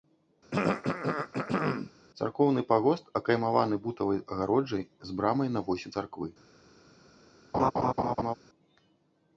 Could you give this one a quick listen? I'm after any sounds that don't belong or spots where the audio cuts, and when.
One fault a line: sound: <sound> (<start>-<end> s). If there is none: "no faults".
sound: throat clearing (0.5-1.9 s)
sound: laugh (7.5-8.3 s)